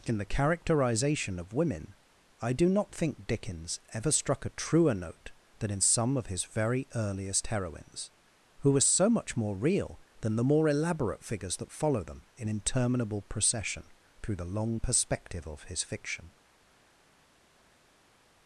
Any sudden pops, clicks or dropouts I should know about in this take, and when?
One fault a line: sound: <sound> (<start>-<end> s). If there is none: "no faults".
no faults